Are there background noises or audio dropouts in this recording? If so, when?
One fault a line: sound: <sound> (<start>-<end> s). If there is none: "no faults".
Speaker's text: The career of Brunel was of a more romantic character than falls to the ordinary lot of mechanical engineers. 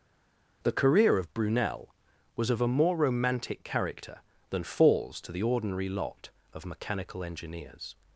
no faults